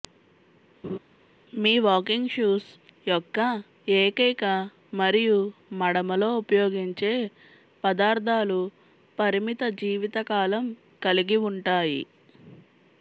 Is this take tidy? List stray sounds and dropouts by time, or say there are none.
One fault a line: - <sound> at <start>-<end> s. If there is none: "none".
- laugh at 0.8-1.0 s